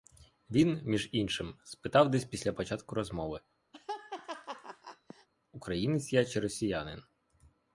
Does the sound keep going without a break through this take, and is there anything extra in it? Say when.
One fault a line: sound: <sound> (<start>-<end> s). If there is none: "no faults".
sound: laugh (3.7-5.3 s)